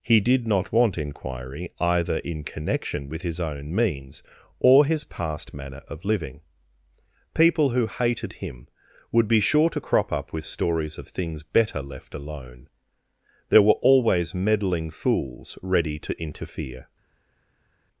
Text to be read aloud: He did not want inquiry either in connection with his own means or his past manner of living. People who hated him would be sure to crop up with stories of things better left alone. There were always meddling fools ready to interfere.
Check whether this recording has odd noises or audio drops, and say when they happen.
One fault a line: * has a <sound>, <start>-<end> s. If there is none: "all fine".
all fine